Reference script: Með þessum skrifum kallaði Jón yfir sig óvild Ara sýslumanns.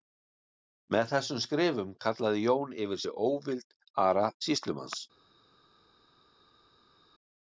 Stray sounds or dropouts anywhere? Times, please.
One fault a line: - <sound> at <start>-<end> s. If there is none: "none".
none